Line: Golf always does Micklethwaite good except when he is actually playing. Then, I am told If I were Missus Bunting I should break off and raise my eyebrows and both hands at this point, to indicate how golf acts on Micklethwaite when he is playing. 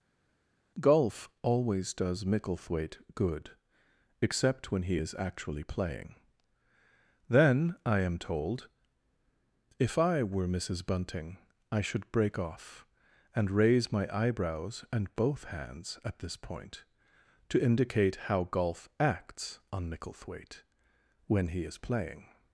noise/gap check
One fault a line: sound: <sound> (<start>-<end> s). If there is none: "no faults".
no faults